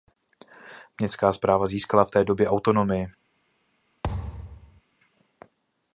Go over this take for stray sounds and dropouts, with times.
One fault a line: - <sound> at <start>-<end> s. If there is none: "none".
- thud at 4.0-4.8 s